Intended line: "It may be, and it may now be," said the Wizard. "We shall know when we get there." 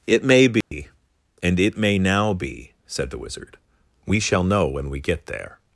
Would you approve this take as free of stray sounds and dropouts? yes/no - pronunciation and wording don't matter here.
no